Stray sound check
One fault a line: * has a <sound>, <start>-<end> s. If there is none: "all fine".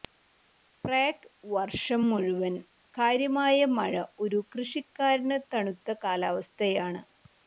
all fine